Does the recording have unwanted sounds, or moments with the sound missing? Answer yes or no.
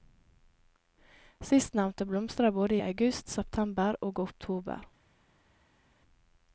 no